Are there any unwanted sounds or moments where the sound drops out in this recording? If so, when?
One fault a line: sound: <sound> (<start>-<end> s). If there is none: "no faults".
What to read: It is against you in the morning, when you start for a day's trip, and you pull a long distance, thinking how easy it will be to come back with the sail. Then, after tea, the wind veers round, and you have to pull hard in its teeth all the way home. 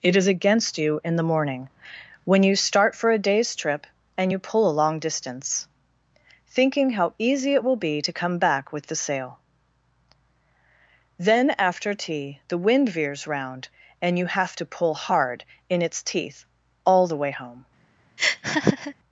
sound: laugh (18.2-18.9 s)